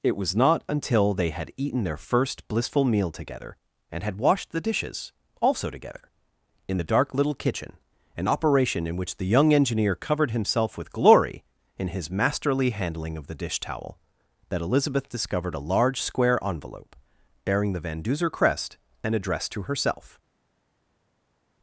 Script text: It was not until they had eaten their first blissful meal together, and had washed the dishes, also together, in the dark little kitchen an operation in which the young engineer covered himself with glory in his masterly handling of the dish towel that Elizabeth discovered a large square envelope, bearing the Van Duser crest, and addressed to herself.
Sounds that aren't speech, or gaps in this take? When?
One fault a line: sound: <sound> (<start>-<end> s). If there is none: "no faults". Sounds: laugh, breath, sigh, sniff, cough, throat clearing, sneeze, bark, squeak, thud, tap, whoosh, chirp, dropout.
no faults